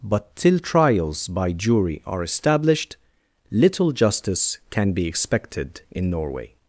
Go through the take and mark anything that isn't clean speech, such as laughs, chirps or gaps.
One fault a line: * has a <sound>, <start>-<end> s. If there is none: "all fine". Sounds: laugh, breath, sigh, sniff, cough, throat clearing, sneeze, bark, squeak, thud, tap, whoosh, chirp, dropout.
all fine